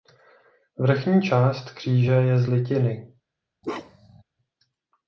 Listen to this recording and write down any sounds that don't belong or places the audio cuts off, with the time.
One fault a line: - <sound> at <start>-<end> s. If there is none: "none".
- bark at 3.6-4.2 s